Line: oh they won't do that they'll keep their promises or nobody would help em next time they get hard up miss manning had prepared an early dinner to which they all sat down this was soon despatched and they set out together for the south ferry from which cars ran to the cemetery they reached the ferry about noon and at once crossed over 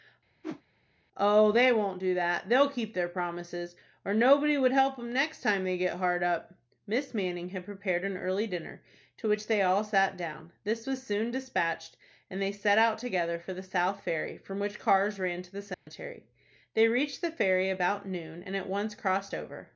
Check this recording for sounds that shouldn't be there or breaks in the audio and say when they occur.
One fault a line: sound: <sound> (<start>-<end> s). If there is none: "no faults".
sound: whoosh (0.4-0.6 s)
sound: dropout (15.7-15.9 s)